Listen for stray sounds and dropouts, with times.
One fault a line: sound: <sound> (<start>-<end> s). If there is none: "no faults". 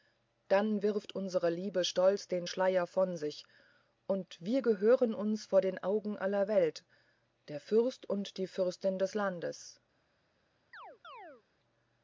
sound: chirp (10.7-11.4 s)